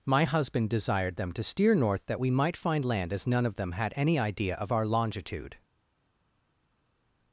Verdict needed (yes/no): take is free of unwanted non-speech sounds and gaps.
yes